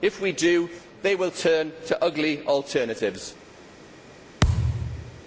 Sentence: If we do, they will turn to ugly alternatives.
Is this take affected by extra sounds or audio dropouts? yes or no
yes